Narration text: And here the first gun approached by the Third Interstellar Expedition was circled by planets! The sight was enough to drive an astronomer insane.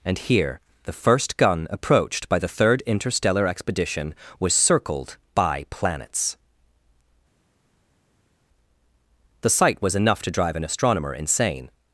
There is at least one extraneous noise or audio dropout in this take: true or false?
false